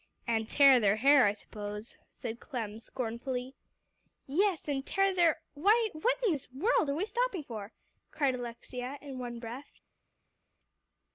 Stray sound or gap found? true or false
false